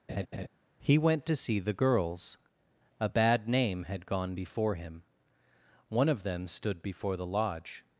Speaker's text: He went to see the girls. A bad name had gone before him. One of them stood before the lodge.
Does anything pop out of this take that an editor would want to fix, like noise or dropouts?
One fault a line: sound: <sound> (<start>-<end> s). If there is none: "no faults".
sound: laugh (0.1-0.5 s)